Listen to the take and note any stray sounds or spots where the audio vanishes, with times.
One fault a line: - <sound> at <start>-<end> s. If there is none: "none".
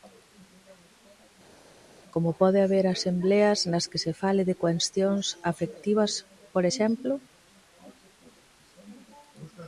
none